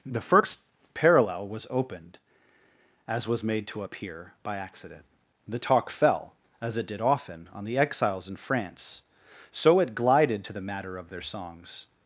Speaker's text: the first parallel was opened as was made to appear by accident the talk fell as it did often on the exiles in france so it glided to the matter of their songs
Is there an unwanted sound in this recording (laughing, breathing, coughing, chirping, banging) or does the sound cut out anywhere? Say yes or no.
no